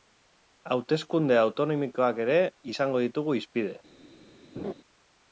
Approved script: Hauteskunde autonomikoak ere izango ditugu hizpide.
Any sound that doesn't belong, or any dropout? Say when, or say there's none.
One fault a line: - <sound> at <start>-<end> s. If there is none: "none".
- laugh at 4.6-4.7 s